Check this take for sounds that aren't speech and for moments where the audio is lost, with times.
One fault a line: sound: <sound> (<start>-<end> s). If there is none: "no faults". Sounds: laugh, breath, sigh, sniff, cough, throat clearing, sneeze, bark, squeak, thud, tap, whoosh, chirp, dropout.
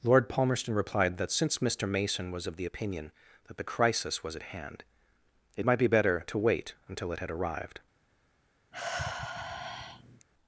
sound: sigh (8.7-10.3 s)